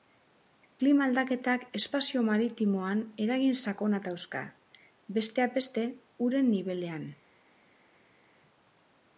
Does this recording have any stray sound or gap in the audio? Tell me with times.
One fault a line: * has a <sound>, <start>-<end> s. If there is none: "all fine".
all fine